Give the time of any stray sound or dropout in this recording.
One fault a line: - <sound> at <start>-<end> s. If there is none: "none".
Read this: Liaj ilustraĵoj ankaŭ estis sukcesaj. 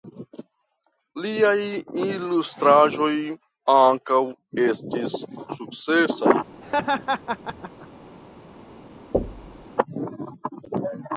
- laugh at 6.6-7.9 s
- thud at 9.1-9.7 s